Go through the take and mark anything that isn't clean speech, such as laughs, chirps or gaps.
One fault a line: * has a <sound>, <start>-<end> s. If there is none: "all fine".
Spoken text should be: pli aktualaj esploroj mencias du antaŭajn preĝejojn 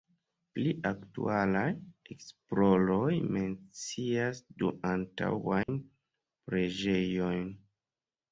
* has a dropout, 5.6-5.7 s